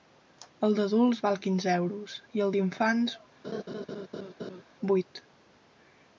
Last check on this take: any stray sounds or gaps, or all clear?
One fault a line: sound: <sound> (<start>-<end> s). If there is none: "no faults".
sound: laugh (3.4-4.6 s)